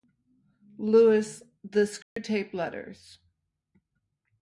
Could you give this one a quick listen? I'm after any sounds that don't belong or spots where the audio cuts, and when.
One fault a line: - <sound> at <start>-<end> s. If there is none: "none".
- dropout at 2.0-2.2 s